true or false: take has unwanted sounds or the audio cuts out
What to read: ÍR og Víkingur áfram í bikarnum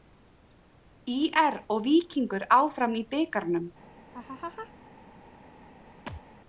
true